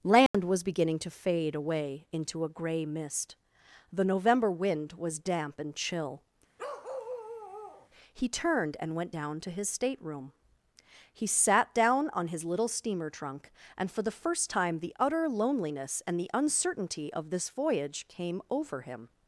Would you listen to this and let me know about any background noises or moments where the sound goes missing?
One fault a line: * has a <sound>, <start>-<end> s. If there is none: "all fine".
* has a dropout, 0.3-0.3 s
* has a bark, 6.6-7.9 s